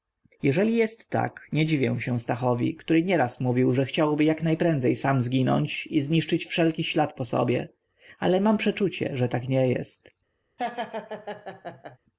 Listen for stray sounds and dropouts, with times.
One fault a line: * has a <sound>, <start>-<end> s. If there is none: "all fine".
* has a laugh, 10.6-12.0 s